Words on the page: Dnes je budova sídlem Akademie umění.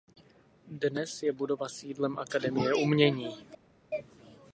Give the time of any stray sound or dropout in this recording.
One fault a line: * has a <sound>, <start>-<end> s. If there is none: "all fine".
all fine